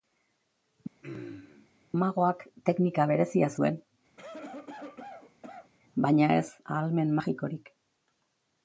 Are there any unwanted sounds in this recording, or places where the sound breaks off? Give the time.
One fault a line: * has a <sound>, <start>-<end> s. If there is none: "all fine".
* has a throat clearing, 1.0-1.7 s
* has a cough, 4.2-5.7 s